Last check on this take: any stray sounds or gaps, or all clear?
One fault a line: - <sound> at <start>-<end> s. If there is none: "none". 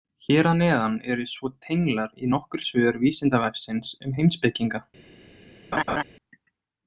- laugh at 5.7-6.0 s